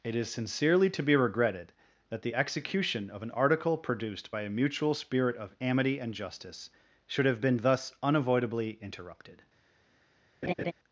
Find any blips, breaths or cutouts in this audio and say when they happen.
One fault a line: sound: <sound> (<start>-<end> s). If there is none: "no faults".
sound: laugh (10.4-10.7 s)